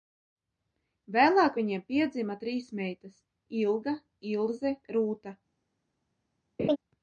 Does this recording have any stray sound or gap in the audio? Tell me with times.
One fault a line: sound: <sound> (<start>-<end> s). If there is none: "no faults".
sound: laugh (6.6-6.8 s)